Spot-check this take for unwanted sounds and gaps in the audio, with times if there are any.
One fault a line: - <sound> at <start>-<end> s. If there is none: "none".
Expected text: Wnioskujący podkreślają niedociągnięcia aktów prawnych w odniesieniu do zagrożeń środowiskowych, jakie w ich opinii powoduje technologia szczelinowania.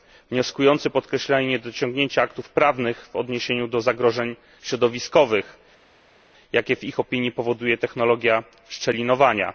none